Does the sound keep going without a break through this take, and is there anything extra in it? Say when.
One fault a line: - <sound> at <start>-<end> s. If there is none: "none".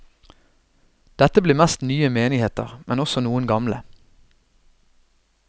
none